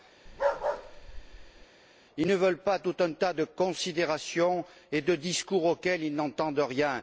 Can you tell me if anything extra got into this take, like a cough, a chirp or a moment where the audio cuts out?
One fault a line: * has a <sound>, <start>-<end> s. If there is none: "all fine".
* has a bark, 0.3-1.7 s